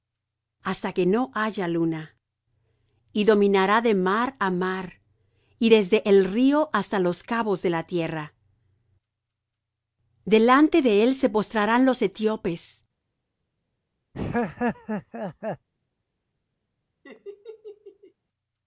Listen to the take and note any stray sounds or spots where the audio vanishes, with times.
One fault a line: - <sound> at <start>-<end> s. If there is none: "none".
- laugh at 14.1-15.7 s
- laugh at 17.0-18.1 s